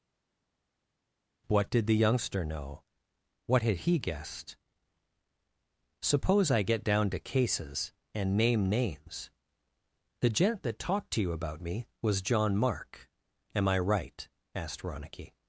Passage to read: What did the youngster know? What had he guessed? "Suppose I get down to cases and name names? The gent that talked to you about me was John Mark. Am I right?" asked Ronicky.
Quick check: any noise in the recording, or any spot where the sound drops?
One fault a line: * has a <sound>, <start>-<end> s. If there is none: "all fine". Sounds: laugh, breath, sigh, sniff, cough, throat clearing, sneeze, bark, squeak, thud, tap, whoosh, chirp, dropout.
all fine